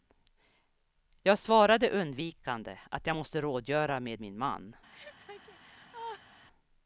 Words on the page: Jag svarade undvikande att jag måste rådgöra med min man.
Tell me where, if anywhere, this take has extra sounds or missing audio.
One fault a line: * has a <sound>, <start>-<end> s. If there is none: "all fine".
* has a laugh, 4.9-6.4 s